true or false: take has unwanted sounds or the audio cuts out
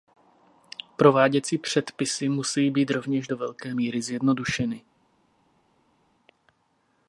false